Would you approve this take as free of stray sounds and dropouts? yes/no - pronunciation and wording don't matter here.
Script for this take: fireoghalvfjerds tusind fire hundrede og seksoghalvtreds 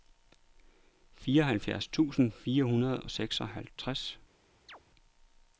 no